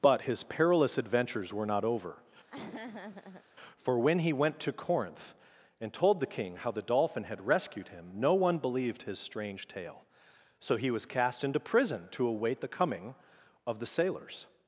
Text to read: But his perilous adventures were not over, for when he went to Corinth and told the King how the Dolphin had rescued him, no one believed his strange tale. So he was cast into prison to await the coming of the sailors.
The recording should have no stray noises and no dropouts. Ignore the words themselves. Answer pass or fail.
fail